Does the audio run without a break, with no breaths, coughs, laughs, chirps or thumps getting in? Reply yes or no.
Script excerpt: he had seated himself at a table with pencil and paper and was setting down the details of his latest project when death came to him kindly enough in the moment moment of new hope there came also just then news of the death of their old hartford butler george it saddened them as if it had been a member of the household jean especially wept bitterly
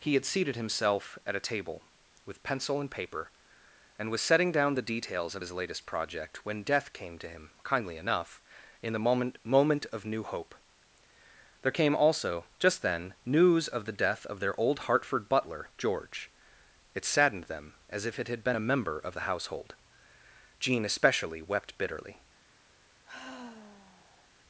no